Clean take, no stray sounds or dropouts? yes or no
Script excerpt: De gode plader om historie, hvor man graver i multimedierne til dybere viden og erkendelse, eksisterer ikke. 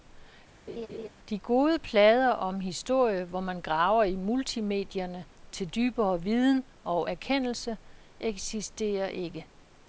no